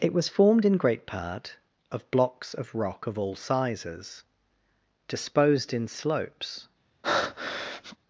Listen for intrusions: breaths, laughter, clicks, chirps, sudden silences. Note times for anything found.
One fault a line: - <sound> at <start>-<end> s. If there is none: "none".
- breath at 7.0-8.0 s